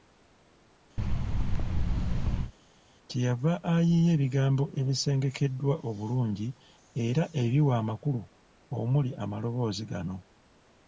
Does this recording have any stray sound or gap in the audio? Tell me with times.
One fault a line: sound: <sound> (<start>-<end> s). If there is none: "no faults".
sound: thud (1.0-2.5 s)